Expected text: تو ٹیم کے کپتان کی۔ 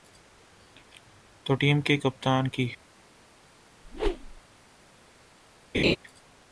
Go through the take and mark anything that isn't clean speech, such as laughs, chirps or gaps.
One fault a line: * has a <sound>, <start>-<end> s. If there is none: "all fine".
* has a whoosh, 3.8-4.4 s
* has a laugh, 5.7-6.0 s